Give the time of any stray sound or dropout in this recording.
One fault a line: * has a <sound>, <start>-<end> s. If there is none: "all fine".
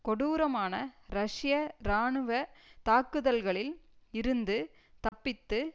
* has a dropout, 5.1-5.1 s